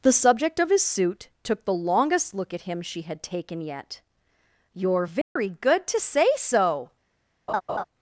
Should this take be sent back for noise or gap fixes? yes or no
yes